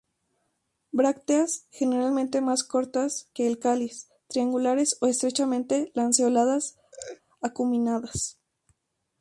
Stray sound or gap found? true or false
true